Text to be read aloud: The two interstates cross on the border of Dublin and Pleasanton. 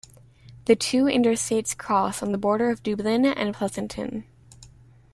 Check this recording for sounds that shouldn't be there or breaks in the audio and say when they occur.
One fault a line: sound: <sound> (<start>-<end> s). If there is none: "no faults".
no faults